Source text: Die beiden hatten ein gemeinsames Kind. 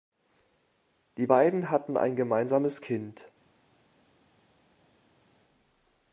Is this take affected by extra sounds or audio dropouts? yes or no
no